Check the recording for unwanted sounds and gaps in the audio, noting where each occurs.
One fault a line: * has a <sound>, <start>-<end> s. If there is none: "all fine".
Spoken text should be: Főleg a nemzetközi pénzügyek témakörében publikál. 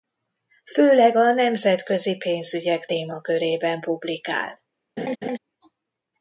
* has a laugh, 5.0-5.4 s